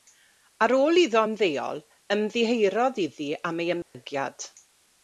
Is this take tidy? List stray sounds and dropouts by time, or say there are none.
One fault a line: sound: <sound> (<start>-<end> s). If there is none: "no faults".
sound: dropout (3.8-3.9 s)